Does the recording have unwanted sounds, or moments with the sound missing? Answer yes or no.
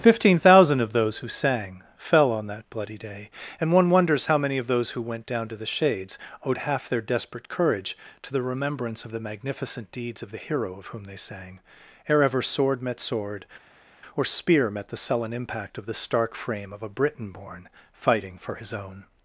no